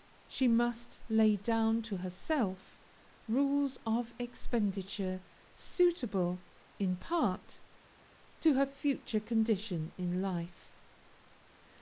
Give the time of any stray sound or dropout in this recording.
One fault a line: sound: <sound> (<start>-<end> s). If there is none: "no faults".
no faults